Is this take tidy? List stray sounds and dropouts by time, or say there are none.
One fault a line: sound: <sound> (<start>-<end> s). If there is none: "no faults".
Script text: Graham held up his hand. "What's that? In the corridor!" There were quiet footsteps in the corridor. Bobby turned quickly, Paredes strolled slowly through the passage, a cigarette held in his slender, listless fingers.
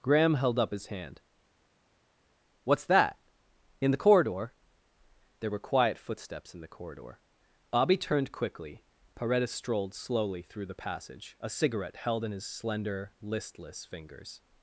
no faults